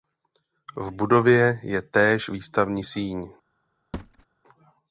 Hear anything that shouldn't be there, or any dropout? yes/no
yes